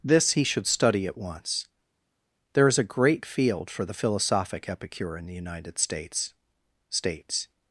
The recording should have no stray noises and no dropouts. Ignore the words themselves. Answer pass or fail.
pass